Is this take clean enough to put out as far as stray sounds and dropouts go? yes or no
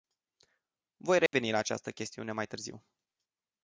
no